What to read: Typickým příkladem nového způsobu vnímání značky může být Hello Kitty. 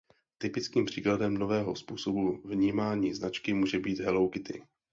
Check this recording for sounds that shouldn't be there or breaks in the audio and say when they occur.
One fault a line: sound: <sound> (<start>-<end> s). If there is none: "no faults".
no faults